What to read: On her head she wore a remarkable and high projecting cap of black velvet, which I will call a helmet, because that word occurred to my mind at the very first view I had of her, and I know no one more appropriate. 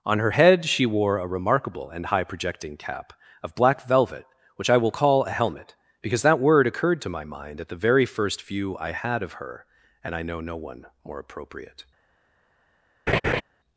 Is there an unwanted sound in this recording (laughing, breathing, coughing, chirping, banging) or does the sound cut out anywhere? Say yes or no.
yes